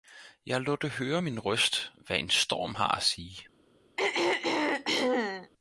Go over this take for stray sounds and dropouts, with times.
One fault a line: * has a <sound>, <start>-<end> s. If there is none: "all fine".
* has a throat clearing, 4.0-5.5 s